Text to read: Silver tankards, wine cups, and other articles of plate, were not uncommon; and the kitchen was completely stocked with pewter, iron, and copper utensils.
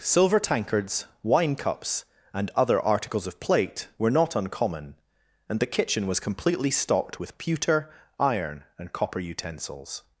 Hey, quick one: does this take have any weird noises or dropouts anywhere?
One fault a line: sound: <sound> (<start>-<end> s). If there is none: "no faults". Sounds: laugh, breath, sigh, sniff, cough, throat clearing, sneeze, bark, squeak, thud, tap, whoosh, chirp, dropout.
no faults